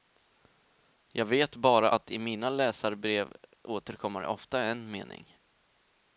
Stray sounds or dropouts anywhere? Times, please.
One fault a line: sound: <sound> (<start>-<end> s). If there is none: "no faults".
no faults